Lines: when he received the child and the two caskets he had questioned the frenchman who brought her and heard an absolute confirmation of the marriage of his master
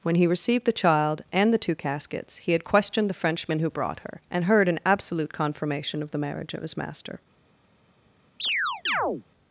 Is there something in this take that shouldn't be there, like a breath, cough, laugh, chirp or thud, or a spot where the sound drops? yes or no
yes